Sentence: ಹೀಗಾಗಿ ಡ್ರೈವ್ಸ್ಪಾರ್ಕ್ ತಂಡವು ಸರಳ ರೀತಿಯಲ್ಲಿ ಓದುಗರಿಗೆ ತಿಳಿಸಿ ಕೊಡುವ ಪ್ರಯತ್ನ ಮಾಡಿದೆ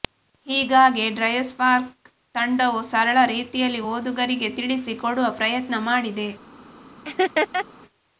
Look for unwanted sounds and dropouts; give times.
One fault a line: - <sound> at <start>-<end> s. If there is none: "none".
- laugh at 7.0-7.7 s